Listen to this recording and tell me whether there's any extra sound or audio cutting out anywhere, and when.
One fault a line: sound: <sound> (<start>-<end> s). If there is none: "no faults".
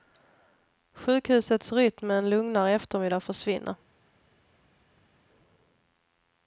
no faults